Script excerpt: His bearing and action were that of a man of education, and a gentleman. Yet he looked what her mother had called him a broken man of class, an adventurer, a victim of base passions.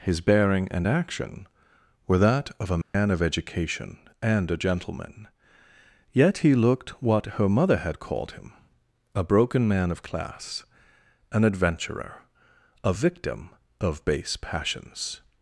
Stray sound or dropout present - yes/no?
yes